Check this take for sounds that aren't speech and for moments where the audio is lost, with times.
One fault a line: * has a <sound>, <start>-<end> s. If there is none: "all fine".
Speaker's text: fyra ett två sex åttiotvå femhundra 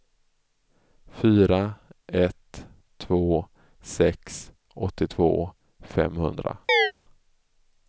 * has a chirp, 6.7-6.9 s